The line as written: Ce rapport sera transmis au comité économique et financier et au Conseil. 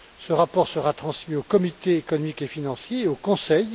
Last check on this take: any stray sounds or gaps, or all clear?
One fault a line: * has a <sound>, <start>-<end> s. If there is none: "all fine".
all fine